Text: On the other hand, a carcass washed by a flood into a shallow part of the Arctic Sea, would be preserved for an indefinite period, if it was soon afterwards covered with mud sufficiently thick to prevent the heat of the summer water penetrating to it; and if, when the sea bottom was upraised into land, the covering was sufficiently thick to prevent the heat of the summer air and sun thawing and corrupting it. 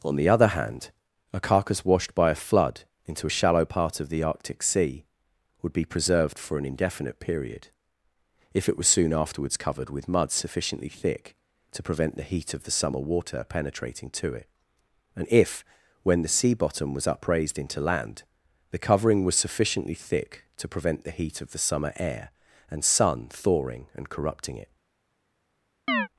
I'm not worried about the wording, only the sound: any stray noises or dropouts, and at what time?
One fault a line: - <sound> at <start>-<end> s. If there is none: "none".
- chirp at 25.9-26.1 s